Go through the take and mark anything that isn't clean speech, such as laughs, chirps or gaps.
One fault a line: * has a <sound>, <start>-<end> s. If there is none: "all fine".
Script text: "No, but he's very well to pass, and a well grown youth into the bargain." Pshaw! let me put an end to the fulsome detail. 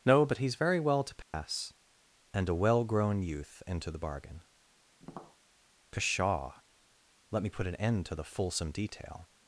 * has a dropout, 1.2-1.3 s
* has a tap, 5.0-5.4 s